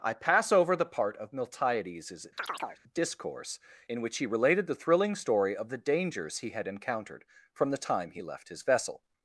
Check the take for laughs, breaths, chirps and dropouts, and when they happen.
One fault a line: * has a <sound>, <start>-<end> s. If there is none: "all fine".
* has a chirp, 2.4-2.8 s